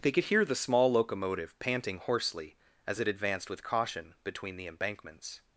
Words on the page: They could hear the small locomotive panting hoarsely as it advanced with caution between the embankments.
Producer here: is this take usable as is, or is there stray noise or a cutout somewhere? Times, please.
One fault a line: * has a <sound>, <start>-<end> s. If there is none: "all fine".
all fine